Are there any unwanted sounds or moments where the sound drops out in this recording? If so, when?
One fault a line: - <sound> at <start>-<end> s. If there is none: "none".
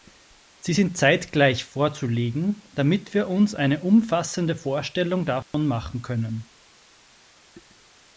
- dropout at 5.4-5.5 s